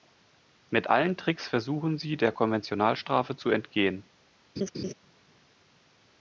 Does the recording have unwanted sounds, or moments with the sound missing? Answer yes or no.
yes